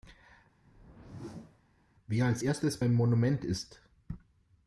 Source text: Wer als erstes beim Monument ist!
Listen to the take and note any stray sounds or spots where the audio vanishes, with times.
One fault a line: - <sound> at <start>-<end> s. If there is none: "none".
- whoosh at 0.6-1.6 s